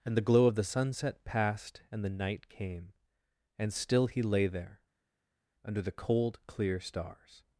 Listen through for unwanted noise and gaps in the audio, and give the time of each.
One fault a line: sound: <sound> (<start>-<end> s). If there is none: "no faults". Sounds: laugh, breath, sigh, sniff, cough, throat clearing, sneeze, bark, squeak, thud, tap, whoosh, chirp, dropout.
no faults